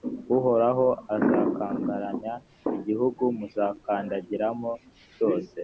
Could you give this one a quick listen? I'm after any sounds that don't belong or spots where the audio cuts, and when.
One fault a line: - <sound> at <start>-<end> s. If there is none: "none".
none